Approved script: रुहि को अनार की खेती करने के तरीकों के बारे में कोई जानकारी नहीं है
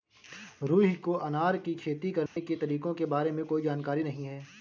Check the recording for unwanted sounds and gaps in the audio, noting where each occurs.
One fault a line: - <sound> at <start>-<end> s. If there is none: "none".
- dropout at 2.3-2.4 s